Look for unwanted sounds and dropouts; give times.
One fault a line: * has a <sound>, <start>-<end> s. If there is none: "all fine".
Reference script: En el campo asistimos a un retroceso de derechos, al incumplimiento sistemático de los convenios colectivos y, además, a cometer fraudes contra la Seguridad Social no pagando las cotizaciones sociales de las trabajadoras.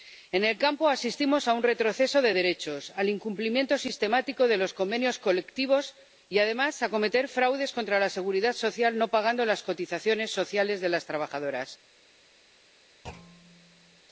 * has a thud, 13.0-14.0 s